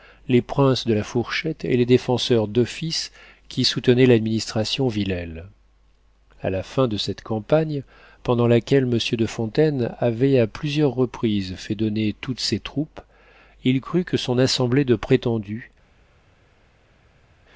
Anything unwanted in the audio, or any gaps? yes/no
no